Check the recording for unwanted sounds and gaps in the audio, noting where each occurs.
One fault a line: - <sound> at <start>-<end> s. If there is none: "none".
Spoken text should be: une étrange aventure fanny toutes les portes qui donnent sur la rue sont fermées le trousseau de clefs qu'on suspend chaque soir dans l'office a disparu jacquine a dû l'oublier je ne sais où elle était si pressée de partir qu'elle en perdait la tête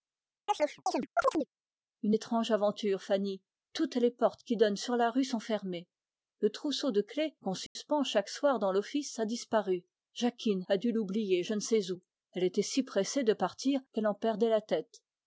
- chirp at 0.5-1.5 s
- dropout at 7.7-7.8 s